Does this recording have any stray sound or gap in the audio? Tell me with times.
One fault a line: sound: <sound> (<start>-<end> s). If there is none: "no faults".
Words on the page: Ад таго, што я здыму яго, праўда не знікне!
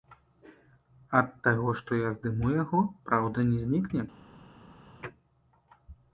no faults